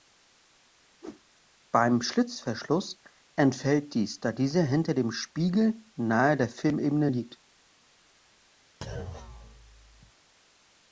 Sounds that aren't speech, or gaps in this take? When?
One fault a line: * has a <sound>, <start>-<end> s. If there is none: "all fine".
* has a whoosh, 1.0-1.2 s
* has a thud, 8.8-10.1 s